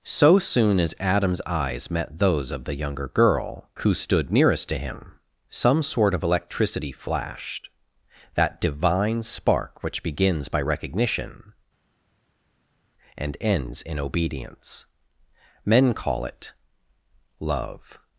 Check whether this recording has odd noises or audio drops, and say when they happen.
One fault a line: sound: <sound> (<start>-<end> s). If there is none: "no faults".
no faults